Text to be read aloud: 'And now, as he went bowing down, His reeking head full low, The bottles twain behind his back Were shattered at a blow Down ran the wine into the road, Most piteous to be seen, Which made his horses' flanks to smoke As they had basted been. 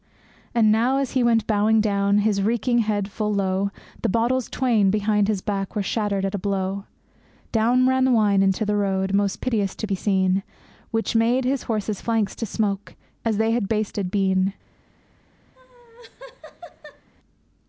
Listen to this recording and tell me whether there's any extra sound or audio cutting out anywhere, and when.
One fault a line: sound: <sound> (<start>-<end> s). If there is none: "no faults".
sound: laugh (15.5-17.1 s)